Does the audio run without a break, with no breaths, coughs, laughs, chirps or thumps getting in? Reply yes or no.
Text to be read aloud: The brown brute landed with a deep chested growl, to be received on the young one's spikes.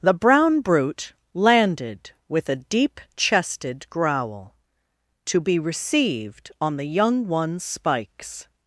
yes